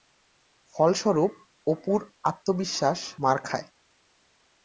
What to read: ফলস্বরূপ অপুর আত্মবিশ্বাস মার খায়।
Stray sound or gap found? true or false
false